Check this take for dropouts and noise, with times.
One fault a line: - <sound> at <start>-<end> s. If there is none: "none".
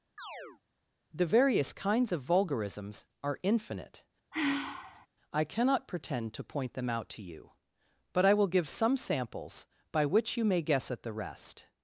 - chirp at 0.2-0.6 s
- sigh at 4.3-5.1 s